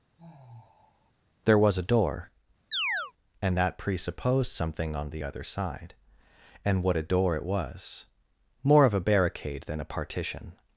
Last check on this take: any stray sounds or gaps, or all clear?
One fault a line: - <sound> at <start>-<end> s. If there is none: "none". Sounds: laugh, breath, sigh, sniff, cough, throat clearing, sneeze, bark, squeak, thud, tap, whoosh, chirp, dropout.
- sigh at 0.2-1.1 s
- chirp at 2.7-3.1 s